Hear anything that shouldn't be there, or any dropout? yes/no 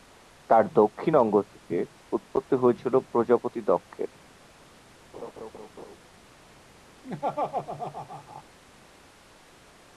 yes